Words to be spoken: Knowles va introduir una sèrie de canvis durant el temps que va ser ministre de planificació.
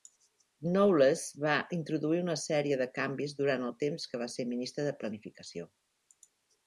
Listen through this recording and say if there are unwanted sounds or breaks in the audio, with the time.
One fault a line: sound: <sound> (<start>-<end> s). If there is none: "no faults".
no faults